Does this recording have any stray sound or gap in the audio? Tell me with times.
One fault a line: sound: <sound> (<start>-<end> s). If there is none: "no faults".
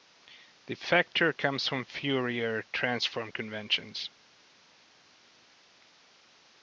no faults